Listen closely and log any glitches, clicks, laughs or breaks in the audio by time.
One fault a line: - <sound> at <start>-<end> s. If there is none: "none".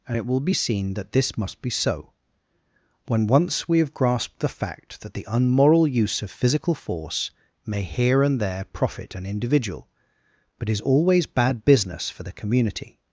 none